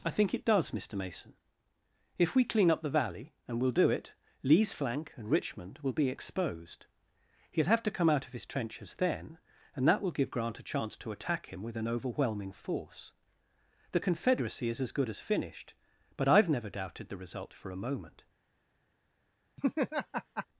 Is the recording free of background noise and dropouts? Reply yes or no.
no